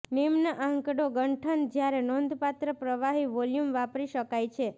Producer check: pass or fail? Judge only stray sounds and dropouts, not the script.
pass